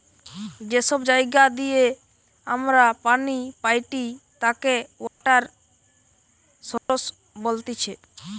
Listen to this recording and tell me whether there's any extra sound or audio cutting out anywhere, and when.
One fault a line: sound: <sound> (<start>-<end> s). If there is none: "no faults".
sound: dropout (5.1-5.2 s)
sound: dropout (6.8-6.9 s)